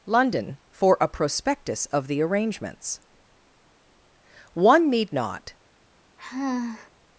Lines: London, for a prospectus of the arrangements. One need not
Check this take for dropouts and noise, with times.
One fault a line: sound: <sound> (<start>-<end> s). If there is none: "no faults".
sound: sigh (6.2-6.9 s)